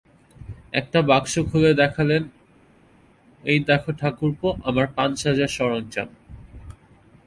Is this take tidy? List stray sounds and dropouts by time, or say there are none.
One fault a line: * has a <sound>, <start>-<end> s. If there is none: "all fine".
all fine